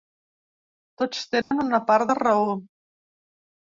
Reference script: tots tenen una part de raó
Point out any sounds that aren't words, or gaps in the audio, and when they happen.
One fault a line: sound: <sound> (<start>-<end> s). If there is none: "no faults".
sound: dropout (1.4-1.5 s)